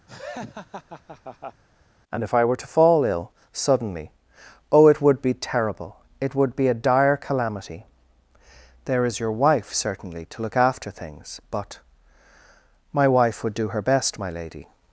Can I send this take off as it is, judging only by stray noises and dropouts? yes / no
no